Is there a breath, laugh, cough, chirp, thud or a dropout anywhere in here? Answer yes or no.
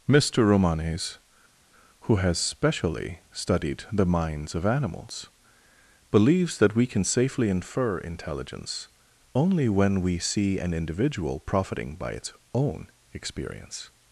no